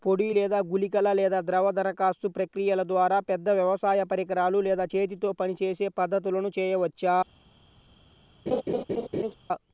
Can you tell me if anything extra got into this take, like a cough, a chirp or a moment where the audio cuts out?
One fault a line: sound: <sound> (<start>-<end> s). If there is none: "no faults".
sound: laugh (8.5-9.4 s)